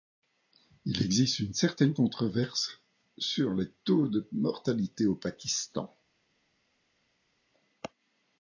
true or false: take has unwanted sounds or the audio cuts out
false